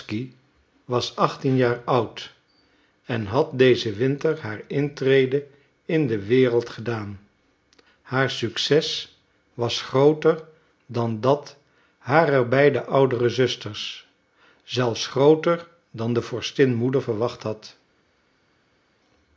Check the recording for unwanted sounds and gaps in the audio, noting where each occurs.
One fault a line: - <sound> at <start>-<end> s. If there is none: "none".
none